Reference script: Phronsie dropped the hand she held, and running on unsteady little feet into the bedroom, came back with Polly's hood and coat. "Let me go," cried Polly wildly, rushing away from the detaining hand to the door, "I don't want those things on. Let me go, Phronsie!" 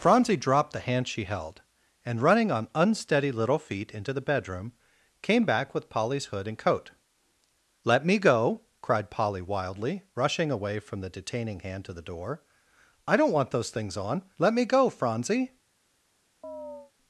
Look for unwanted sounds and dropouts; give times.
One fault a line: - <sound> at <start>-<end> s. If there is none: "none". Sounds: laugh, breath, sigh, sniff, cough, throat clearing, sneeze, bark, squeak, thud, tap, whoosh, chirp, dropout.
- chirp at 16.4-16.9 s